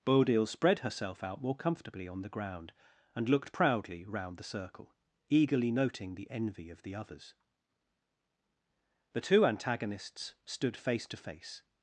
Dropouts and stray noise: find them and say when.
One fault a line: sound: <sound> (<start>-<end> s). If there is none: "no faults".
no faults